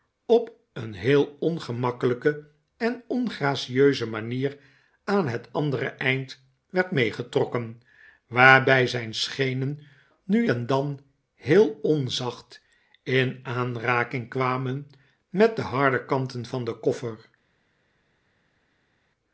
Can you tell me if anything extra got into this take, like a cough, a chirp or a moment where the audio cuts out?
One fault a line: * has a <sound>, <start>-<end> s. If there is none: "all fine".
all fine